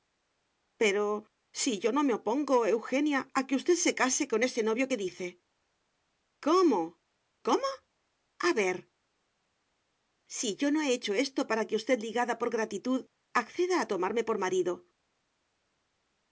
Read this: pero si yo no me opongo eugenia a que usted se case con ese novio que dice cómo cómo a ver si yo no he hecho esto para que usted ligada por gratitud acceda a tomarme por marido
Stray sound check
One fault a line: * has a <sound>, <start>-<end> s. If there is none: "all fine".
all fine